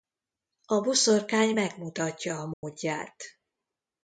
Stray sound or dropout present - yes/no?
yes